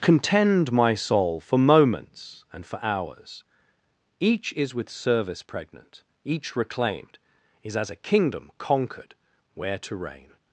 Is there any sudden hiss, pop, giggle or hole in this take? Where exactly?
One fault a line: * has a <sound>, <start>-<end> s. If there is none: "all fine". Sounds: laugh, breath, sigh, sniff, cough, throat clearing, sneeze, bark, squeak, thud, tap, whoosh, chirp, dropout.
all fine